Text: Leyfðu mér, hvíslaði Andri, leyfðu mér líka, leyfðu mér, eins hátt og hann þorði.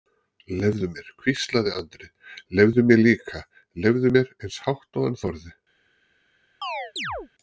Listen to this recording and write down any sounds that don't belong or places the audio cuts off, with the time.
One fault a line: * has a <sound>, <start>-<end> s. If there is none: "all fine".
* has a chirp, 6.6-7.3 s